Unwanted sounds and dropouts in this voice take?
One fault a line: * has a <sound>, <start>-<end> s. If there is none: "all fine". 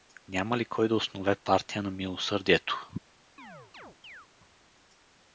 * has a chirp, 3.4-4.3 s